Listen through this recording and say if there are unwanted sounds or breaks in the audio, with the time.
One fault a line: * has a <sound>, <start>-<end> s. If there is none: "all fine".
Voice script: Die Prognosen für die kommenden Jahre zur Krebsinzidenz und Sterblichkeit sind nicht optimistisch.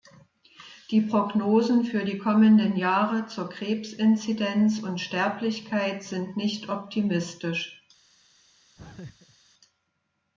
* has a laugh, 8.8-9.4 s